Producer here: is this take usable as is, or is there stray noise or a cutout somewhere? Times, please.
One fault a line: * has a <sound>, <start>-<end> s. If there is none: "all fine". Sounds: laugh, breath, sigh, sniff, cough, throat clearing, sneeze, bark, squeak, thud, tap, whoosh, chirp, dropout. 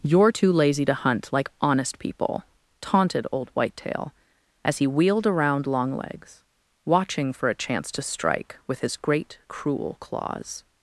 all fine